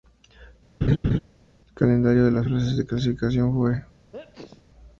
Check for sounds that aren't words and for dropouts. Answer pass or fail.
fail